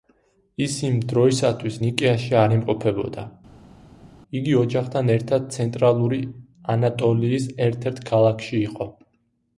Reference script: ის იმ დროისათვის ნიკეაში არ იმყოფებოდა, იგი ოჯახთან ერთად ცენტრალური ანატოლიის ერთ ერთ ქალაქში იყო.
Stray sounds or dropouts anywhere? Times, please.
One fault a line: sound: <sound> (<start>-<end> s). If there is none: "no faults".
no faults